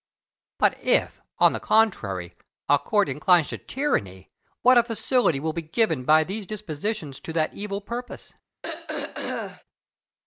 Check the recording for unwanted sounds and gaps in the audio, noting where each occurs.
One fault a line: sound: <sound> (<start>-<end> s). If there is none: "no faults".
sound: throat clearing (8.6-9.6 s)